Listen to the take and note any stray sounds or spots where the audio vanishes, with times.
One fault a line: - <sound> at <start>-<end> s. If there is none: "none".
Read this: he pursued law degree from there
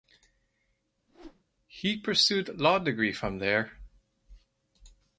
- whoosh at 1.1-1.4 s